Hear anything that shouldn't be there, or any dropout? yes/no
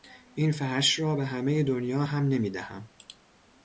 no